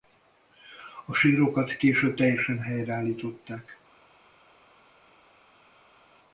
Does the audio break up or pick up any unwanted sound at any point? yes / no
no